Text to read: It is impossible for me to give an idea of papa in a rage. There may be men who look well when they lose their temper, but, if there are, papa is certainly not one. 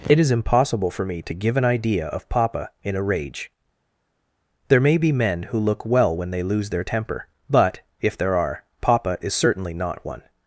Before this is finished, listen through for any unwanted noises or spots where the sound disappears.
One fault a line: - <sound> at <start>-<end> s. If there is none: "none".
none